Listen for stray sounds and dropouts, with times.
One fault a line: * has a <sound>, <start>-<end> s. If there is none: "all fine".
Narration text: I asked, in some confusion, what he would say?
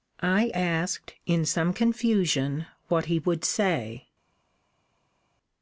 all fine